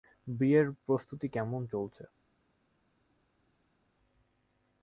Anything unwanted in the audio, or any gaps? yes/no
no